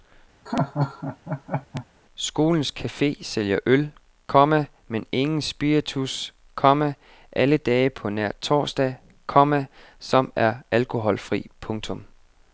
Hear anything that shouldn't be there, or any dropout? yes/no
yes